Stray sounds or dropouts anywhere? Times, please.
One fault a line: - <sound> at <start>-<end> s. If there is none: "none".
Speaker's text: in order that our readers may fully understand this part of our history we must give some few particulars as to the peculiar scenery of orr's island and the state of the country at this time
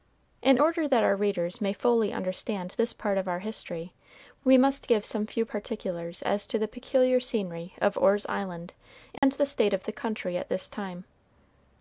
- dropout at 9.2-9.2 s